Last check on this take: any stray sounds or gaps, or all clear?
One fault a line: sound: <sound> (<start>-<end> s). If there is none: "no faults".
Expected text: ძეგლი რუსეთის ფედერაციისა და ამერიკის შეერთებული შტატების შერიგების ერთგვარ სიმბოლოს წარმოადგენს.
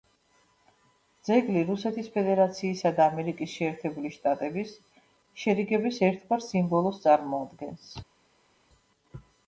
no faults